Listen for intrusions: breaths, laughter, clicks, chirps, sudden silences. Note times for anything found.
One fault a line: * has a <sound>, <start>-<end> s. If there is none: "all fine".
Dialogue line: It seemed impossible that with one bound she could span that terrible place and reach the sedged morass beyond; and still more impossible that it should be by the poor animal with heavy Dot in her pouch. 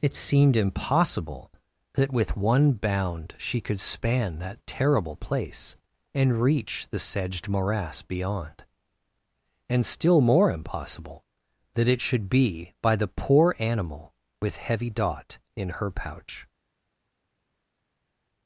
all fine